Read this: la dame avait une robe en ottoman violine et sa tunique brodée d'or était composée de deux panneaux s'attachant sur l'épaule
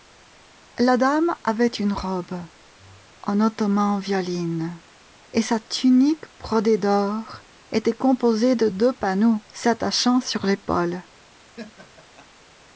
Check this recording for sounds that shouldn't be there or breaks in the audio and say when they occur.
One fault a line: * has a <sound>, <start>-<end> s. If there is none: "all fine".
* has a laugh, 11.4-12.3 s